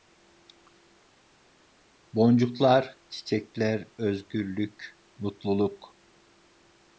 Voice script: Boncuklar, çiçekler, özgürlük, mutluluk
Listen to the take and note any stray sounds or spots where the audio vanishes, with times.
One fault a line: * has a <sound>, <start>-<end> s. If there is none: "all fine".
all fine